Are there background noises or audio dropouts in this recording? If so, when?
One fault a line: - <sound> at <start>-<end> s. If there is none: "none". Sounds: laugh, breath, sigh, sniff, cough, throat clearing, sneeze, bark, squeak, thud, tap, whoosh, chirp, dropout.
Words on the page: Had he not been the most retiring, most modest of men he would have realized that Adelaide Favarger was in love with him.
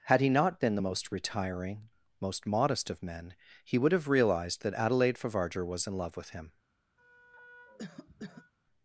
- cough at 7.0-8.5 s